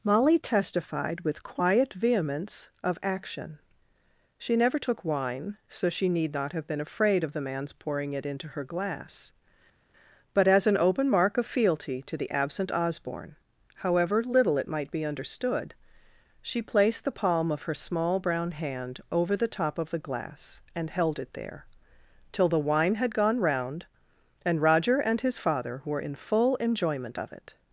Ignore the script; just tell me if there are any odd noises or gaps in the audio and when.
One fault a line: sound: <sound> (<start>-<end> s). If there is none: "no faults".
no faults